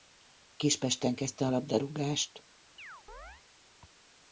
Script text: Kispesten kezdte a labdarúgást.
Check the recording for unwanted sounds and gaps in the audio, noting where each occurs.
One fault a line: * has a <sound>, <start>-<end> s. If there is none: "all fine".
* has a chirp, 2.8-3.4 s